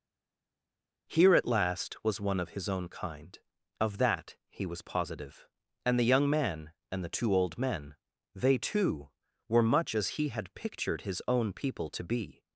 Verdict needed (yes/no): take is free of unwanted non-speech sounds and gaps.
yes